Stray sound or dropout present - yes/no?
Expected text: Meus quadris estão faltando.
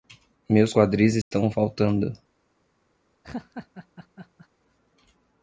yes